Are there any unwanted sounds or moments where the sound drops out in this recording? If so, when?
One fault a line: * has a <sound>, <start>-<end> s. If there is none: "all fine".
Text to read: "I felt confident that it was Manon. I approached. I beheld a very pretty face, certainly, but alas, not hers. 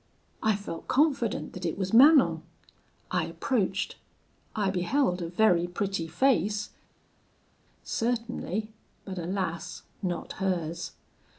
all fine